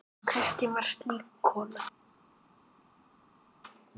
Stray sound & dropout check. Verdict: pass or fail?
pass